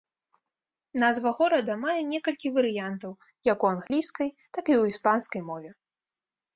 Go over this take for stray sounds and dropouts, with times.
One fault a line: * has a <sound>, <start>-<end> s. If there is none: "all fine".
* has a dropout, 3.9-3.9 s